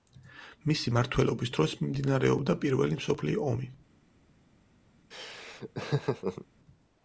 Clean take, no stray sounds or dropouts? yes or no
no